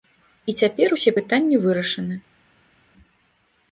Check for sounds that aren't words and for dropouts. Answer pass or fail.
pass